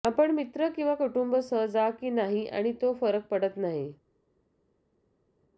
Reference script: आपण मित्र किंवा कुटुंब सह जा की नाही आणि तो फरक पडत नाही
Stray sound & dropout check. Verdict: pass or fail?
pass